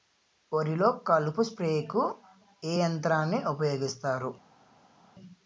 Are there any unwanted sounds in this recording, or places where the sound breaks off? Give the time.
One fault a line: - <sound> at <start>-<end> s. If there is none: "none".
none